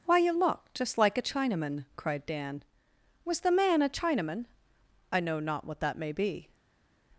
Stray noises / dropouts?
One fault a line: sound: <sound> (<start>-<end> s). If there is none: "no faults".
no faults